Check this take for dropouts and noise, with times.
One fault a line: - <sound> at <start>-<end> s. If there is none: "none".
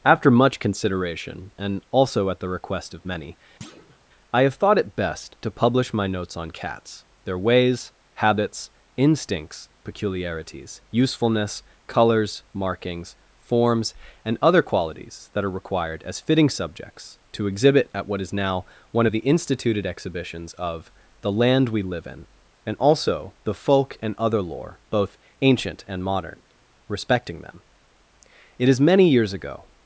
- thud at 3.6-4.0 s